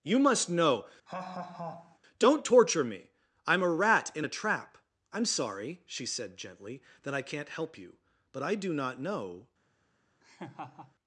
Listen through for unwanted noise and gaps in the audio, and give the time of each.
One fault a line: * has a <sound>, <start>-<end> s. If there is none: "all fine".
* has a laugh, 1.1-2.0 s
* has a laugh, 10.2-11.0 s